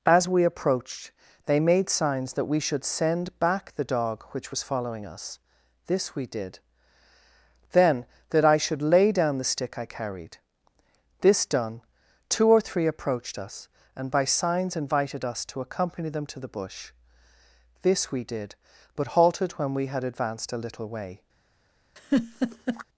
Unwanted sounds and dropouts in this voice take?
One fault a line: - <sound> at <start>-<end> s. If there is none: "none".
- laugh at 22.0-22.8 s